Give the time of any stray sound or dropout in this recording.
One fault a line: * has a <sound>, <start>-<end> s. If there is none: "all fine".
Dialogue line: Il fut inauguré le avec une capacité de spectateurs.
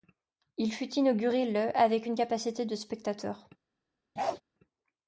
* has a bark, 4.2-4.4 s